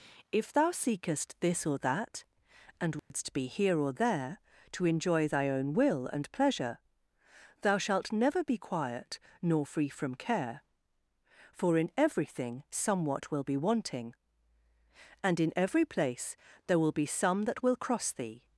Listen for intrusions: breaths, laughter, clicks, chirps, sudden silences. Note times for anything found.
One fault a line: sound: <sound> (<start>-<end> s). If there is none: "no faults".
sound: dropout (3.0-3.1 s)